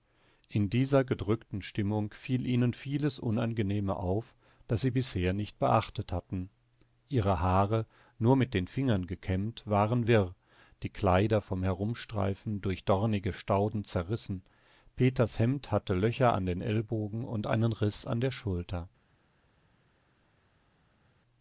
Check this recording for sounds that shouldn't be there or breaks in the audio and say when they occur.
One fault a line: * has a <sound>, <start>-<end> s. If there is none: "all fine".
all fine